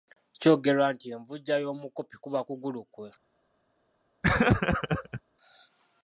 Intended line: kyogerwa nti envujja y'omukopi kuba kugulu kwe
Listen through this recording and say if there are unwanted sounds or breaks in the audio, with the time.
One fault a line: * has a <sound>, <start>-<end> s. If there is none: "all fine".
* has a laugh, 4.2-5.2 s